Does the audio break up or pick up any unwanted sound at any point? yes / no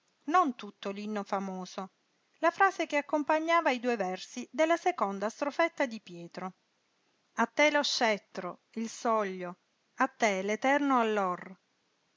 no